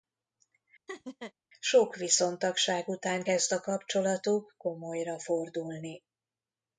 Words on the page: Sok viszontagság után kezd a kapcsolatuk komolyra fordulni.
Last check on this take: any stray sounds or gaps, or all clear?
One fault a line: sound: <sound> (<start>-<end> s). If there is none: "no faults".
sound: laugh (0.9-1.3 s)